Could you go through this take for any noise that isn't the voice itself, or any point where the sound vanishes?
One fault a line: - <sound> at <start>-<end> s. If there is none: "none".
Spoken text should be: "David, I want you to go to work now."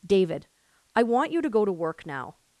none